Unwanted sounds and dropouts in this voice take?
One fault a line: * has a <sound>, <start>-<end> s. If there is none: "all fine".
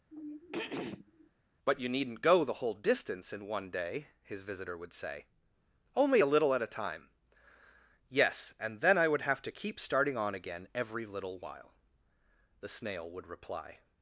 * has a throat clearing, 0.1-1.3 s